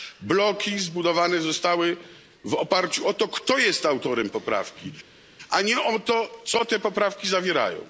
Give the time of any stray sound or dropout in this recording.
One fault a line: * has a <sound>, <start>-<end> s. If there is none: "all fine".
all fine